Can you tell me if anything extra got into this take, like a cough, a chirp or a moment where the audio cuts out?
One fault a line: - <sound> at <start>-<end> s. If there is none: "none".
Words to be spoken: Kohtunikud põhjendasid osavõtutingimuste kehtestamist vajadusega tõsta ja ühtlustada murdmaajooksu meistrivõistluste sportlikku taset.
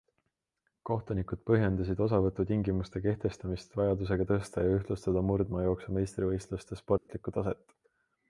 - dropout at 7.0-7.1 s